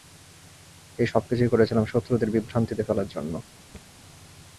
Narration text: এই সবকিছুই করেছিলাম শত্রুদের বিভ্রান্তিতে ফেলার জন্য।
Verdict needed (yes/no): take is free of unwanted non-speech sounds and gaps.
no